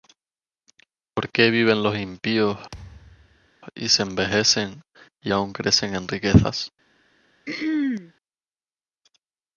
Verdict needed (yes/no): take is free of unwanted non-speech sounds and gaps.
no